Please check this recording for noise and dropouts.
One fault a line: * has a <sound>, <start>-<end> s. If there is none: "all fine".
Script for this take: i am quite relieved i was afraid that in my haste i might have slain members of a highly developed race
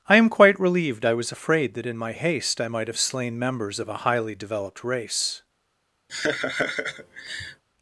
* has a laugh, 6.1-7.6 s